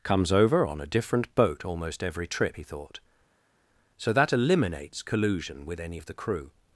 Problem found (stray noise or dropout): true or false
false